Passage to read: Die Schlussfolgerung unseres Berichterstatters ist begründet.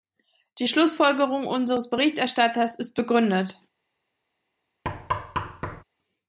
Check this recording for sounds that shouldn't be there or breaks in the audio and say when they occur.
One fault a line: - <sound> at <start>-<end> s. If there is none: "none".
- thud at 4.8-5.8 s